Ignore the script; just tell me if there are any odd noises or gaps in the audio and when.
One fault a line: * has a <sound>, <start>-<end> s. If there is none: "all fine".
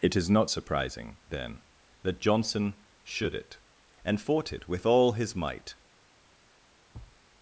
* has a thud, 6.9-7.2 s